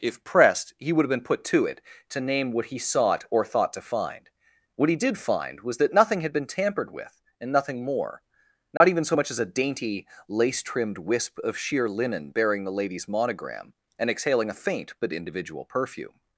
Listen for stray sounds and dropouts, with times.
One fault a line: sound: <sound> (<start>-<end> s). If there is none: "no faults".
sound: dropout (8.8-8.8 s)